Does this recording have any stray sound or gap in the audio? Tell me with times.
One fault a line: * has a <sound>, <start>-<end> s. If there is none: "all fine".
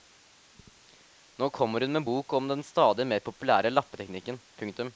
all fine